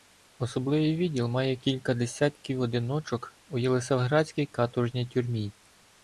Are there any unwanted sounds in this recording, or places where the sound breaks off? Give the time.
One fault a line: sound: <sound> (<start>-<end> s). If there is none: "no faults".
no faults